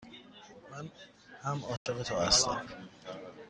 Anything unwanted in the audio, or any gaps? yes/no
yes